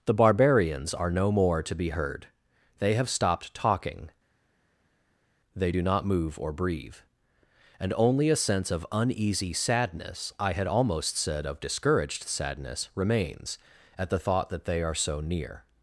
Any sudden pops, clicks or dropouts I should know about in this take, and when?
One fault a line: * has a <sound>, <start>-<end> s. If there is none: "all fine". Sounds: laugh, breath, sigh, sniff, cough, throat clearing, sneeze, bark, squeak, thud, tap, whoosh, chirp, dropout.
all fine